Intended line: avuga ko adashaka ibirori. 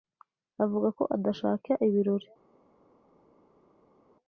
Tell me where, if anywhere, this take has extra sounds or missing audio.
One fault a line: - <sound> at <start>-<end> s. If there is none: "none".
none